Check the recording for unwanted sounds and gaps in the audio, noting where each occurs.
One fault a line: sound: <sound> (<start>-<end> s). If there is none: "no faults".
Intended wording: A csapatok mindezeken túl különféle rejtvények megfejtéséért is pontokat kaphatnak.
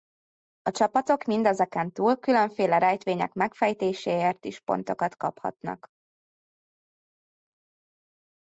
no faults